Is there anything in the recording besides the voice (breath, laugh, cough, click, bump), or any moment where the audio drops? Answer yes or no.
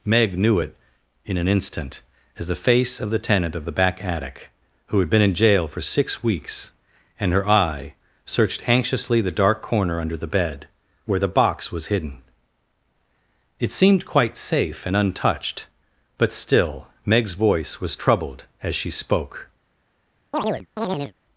yes